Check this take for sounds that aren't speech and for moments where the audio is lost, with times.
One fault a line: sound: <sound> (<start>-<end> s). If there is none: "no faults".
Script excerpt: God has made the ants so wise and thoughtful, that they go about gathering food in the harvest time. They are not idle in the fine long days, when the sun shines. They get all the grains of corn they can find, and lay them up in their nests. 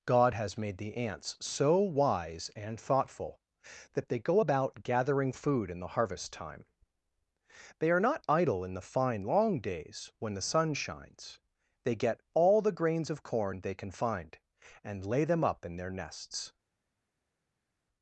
no faults